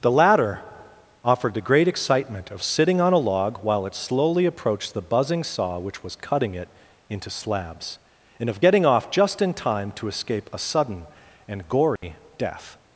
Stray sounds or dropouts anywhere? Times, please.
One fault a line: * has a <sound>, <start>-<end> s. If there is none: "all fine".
* has a dropout, 12.0-12.0 s